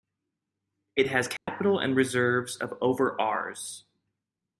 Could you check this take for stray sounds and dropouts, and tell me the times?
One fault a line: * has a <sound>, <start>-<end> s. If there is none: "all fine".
* has a dropout, 1.4-1.5 s